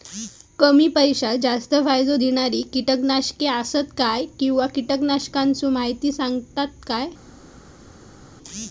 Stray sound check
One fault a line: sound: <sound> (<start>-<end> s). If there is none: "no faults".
no faults